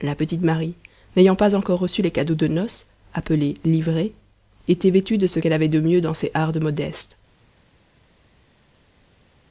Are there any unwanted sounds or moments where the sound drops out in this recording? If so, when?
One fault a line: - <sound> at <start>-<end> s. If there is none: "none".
none